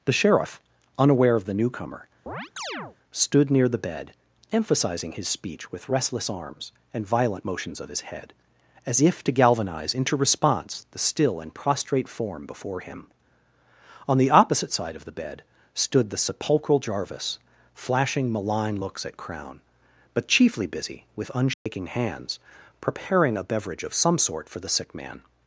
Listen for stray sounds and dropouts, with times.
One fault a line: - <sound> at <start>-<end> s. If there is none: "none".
- chirp at 2.3-3.0 s
- dropout at 21.5-21.7 s